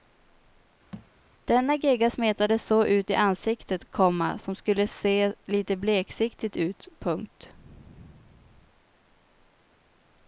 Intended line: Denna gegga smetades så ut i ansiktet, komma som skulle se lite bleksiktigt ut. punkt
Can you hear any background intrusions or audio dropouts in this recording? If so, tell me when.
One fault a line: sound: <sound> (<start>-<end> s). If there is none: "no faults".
sound: thud (0.9-1.1 s)